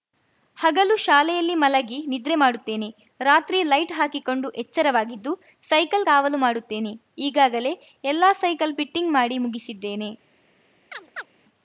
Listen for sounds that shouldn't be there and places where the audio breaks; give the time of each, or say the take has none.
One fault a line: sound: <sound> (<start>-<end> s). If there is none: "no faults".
sound: chirp (10.9-11.3 s)